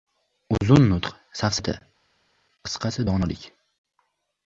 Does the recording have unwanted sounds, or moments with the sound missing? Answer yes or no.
no